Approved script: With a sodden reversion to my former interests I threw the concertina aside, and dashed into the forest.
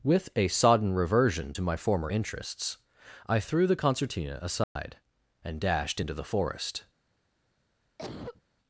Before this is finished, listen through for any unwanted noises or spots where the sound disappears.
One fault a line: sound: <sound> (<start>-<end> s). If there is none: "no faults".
sound: dropout (4.6-4.8 s)
sound: cough (8.0-8.4 s)